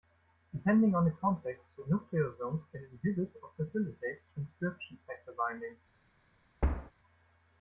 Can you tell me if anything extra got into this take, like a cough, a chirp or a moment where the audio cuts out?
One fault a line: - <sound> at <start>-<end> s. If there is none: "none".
- thud at 6.6-6.9 s